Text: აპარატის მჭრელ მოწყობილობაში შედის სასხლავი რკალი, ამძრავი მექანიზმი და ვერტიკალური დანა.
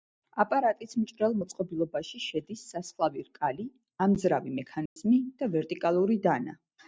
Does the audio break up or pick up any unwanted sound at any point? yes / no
yes